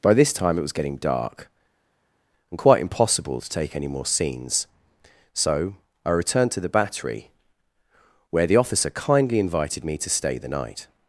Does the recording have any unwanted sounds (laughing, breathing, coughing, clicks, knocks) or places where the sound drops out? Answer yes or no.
no